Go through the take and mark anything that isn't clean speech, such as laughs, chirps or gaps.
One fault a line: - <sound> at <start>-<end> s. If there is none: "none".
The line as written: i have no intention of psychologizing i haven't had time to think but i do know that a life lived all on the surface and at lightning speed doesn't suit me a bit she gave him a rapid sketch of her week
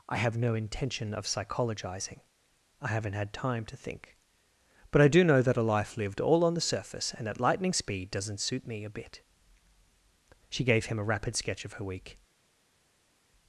none